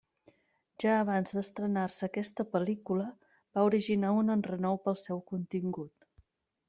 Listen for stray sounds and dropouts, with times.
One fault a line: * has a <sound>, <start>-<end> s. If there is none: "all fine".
all fine